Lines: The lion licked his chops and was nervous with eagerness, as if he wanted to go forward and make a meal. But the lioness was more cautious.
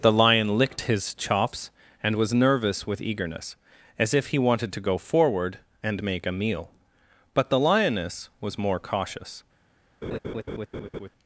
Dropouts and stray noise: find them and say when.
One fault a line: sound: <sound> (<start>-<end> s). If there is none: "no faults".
sound: laugh (10.0-11.1 s)